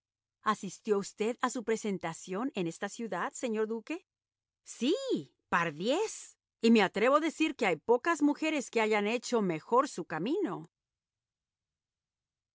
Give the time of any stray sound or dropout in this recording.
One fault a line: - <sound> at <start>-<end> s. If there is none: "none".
none